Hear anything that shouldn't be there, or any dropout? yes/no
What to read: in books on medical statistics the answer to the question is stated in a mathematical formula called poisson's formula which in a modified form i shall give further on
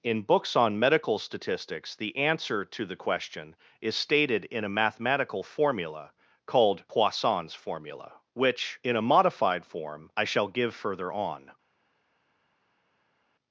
no